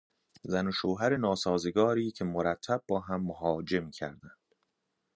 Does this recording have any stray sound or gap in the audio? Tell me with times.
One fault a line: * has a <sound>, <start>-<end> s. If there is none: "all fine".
all fine